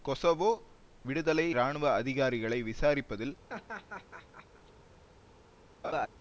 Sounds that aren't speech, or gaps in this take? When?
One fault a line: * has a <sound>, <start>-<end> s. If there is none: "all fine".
* has a laugh, 3.5-4.7 s
* has a laugh, 5.8-6.1 s